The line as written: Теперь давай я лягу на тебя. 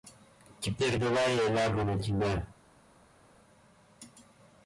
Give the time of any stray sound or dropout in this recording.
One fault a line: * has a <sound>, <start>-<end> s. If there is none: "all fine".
all fine